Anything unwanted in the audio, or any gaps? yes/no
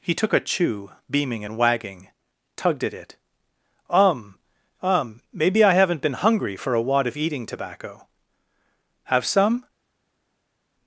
no